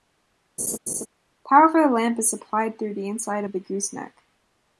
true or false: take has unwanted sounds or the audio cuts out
true